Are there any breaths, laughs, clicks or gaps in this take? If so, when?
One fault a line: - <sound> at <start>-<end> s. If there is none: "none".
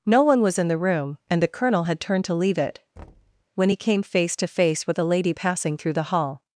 - thud at 3.0-3.4 s